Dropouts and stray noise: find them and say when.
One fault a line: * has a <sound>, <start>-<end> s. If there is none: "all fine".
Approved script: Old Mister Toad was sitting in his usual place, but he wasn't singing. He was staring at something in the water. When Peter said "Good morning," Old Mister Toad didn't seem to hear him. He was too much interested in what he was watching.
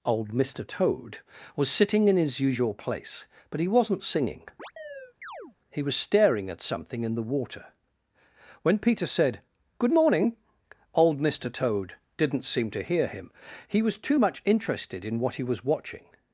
* has a chirp, 4.6-5.6 s